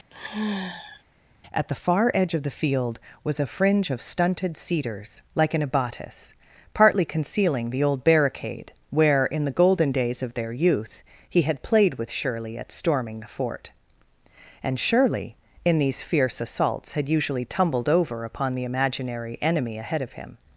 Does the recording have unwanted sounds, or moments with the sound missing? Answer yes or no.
yes